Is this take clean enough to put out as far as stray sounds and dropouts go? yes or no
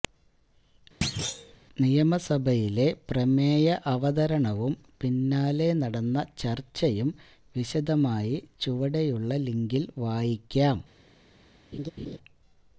no